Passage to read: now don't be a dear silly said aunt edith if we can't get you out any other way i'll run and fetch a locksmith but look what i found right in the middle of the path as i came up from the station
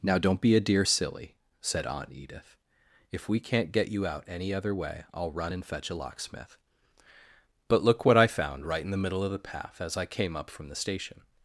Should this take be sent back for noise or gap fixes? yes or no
no